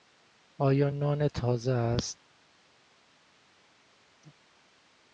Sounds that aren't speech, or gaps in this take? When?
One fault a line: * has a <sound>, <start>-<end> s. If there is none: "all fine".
all fine